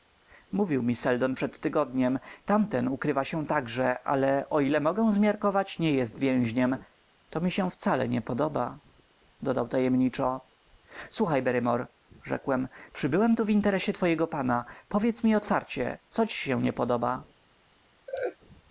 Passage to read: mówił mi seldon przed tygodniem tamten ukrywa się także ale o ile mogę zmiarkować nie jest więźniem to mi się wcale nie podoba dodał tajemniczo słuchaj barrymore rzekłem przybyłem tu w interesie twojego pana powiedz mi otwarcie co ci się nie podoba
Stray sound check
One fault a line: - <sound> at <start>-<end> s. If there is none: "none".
- laugh at 18.1-18.4 s